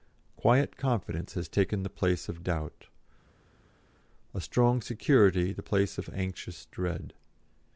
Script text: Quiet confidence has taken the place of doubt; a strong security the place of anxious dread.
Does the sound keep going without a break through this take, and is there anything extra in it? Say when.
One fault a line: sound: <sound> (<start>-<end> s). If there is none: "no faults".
no faults